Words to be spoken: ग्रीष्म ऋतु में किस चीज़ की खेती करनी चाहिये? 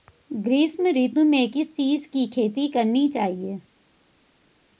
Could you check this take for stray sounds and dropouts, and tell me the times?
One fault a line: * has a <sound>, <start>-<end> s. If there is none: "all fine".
all fine